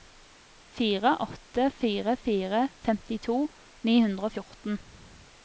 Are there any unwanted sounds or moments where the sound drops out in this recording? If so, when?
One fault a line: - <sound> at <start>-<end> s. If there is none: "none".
none